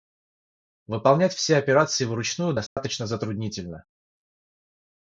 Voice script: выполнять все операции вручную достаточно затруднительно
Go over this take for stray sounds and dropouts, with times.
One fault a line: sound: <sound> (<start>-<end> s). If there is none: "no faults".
sound: dropout (2.7-2.8 s)